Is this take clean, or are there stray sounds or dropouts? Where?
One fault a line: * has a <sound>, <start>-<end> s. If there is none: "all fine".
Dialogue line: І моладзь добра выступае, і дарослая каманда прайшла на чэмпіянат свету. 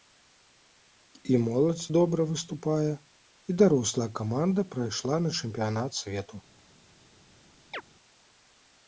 * has a chirp, 7.7-7.8 s